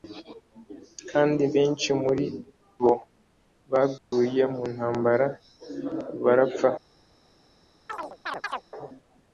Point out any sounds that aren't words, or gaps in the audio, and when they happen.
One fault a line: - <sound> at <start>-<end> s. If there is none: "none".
- dropout at 4.0-4.1 s
- chirp at 7.9-8.6 s